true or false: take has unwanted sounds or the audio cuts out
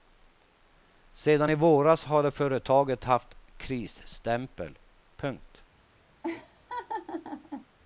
true